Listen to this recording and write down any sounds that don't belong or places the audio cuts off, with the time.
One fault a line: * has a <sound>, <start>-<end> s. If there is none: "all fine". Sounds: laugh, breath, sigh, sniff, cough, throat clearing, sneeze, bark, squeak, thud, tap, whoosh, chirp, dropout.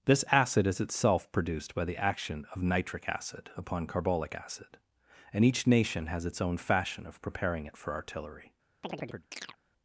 * has a chirp, 8.8-9.6 s